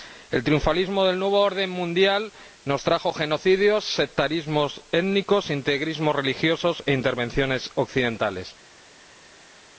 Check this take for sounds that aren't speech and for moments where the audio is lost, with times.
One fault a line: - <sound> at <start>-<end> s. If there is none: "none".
none